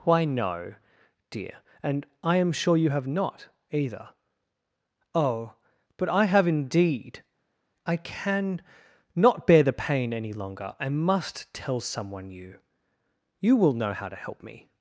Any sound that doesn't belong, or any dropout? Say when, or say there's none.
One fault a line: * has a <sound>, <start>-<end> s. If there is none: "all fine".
all fine